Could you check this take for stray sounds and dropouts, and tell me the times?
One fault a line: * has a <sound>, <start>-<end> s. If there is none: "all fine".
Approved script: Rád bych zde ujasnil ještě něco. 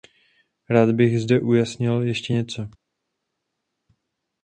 all fine